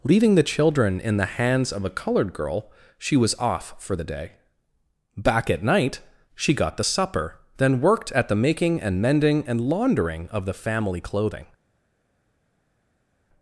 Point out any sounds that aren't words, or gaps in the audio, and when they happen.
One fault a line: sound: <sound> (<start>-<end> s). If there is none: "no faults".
no faults